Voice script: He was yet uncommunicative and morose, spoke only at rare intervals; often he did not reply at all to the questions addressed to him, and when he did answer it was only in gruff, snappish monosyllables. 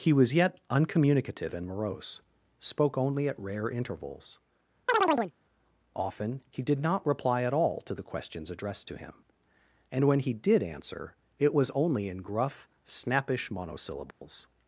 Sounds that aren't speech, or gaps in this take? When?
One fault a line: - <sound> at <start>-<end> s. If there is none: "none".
- chirp at 4.9-5.3 s
- dropout at 14.1-14.2 s